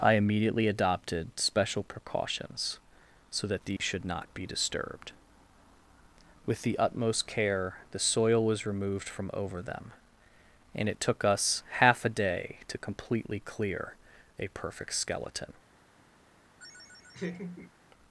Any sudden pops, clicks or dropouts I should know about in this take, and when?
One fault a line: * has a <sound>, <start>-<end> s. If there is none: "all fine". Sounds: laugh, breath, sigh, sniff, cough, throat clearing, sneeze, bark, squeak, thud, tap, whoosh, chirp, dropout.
* has a dropout, 3.8-3.8 s
* has a laugh, 16.6-17.7 s